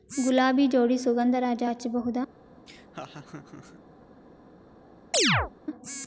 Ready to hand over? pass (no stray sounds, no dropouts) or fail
fail